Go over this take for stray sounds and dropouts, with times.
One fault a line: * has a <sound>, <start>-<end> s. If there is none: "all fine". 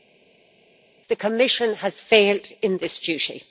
all fine